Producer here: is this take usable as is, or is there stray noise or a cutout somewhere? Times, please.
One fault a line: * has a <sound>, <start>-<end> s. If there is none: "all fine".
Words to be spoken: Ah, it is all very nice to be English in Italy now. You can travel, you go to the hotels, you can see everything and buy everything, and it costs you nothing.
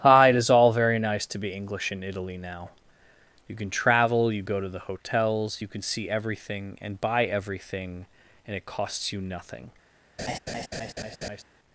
* has a laugh, 10.2-11.4 s